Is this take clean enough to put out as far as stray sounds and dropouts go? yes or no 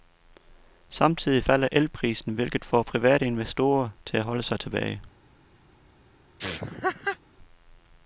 no